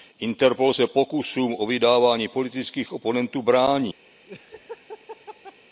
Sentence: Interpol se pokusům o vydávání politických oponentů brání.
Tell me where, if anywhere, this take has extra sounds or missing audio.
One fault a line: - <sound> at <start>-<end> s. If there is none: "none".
- laugh at 4.3-5.6 s